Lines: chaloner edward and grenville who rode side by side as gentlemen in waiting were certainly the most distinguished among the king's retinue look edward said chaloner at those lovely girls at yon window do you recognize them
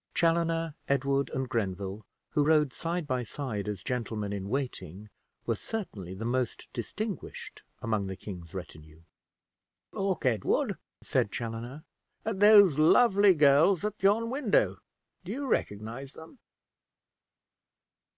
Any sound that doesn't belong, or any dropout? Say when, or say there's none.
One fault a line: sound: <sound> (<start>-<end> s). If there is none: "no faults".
no faults